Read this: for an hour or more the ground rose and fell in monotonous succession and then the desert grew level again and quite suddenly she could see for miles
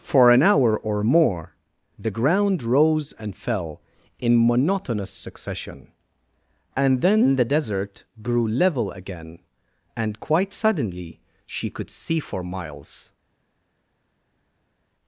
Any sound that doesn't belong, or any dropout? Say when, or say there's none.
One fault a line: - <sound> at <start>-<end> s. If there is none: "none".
none